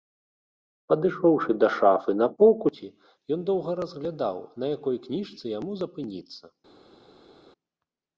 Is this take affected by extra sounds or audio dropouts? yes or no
no